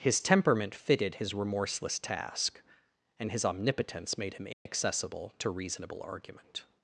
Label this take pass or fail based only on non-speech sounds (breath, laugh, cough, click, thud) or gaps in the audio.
fail